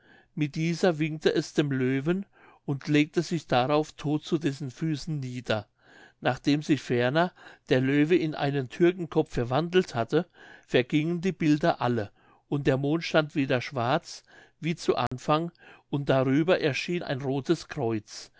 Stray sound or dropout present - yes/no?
yes